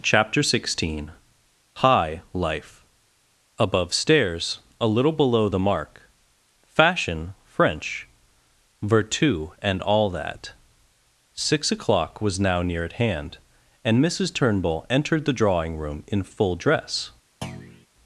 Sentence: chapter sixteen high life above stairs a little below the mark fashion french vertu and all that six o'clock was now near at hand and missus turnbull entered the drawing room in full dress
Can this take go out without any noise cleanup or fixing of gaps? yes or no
no